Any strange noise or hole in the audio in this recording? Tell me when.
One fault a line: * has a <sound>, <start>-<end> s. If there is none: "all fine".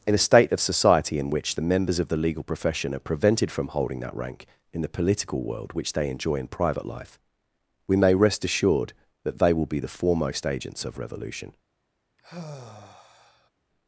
* has a sigh, 12.2-13.5 s